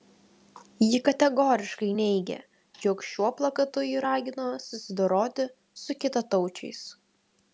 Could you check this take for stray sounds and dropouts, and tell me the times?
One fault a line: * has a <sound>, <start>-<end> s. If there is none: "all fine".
all fine